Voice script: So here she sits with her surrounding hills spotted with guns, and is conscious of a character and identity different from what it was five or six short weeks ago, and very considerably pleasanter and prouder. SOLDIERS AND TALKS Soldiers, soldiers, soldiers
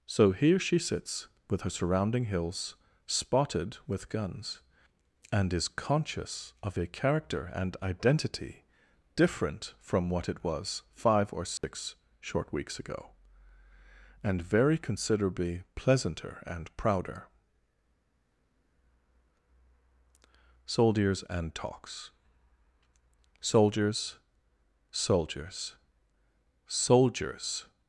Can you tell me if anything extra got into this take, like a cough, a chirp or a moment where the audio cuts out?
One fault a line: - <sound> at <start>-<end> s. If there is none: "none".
- dropout at 11.6-11.6 s